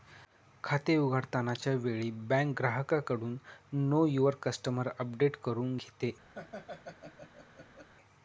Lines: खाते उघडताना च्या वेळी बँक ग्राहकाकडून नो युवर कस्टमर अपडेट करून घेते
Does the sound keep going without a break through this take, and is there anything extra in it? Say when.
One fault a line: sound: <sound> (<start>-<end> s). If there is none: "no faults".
sound: laugh (6.3-7.9 s)